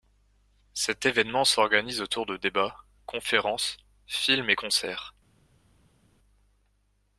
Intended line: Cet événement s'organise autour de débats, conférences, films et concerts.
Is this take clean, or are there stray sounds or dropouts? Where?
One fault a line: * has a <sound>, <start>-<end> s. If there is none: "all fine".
all fine